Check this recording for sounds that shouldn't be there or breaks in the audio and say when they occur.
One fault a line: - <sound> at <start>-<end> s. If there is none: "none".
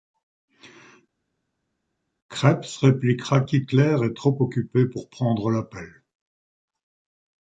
none